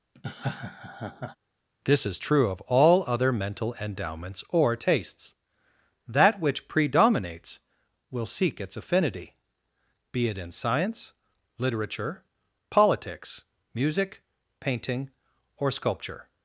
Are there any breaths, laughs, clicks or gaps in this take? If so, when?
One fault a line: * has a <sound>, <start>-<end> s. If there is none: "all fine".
* has a laugh, 0.1-1.4 s